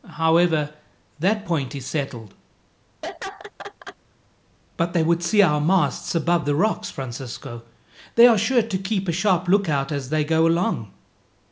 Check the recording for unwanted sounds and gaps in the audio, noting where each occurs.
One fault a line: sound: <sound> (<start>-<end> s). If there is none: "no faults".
sound: laugh (3.0-4.0 s)